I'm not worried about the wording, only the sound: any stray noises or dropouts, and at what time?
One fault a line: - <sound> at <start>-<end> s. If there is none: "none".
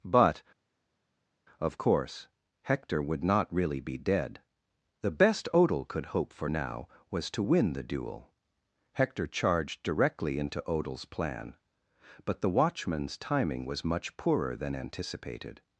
none